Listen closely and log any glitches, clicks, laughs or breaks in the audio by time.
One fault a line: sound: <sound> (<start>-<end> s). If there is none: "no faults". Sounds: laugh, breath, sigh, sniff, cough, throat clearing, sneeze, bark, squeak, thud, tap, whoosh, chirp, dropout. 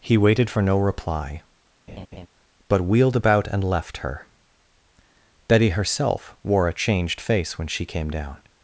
sound: laugh (1.9-2.3 s)